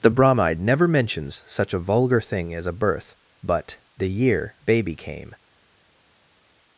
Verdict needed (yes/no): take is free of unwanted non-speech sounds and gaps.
yes